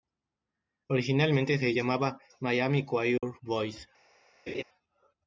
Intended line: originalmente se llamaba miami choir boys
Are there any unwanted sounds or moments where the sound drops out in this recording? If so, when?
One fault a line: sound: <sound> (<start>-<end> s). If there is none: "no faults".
sound: dropout (3.2-3.2 s)
sound: laugh (4.5-4.6 s)